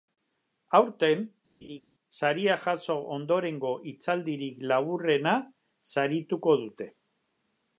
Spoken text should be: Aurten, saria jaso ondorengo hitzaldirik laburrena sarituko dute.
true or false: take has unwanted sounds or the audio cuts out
true